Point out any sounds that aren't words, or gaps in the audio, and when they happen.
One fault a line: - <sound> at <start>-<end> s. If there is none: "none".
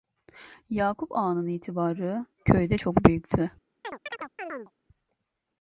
- chirp at 3.8-4.7 s